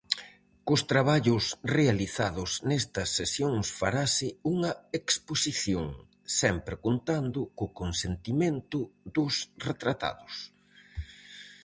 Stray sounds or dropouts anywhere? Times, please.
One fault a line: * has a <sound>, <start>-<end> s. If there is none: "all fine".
all fine